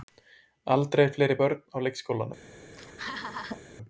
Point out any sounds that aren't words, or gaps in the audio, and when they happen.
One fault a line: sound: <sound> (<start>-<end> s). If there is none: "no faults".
sound: laugh (2.7-3.6 s)